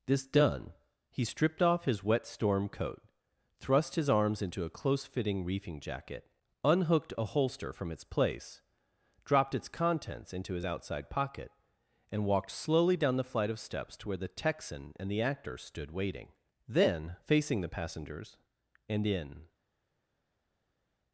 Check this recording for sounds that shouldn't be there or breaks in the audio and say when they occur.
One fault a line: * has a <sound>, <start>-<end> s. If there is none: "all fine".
all fine